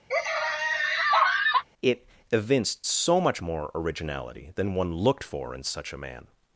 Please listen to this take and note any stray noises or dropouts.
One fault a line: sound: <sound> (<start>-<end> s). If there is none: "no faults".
sound: laugh (0.1-1.6 s)